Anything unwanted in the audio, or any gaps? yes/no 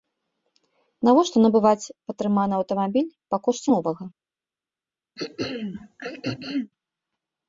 yes